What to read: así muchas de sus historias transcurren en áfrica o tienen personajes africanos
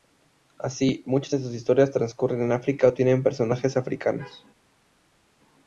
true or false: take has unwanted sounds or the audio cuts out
false